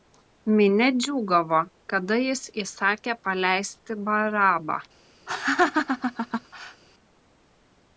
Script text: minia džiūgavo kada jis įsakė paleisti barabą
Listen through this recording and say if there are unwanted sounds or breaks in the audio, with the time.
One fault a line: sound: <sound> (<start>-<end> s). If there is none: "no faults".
sound: laugh (5.3-6.8 s)